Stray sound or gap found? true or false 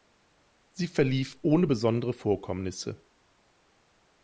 false